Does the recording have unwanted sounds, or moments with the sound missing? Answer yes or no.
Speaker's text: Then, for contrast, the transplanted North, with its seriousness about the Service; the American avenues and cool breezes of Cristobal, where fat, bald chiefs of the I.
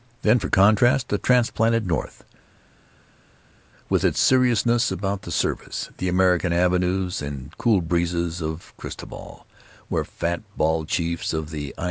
no